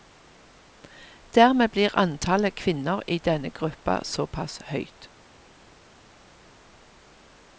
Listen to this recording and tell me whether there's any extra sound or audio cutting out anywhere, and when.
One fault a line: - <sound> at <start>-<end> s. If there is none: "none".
none